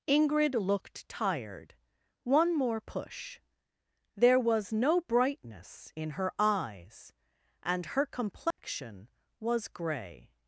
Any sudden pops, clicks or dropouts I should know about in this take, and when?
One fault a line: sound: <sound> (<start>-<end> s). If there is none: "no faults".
sound: dropout (8.5-8.6 s)